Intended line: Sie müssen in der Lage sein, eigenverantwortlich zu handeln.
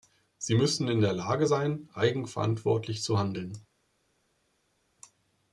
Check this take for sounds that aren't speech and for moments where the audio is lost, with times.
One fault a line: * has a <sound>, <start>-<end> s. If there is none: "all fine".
all fine